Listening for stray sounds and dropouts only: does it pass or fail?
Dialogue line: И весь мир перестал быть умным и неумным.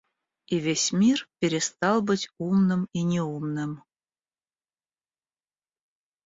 pass